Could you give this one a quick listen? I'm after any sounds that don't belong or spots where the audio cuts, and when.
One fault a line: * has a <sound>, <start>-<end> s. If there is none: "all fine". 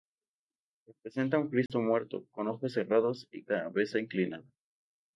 * has a dropout, 1.7-1.7 s